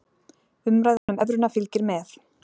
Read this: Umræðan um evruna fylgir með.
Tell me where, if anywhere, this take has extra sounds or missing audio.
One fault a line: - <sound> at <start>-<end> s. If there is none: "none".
- dropout at 1.0-1.1 s